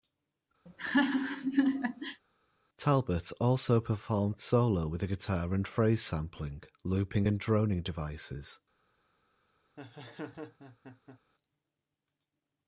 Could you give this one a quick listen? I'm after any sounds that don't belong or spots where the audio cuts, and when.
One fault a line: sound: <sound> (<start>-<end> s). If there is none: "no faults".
sound: laugh (0.7-2.2 s)
sound: laugh (9.8-11.2 s)